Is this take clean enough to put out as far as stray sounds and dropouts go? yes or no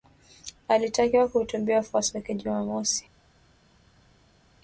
yes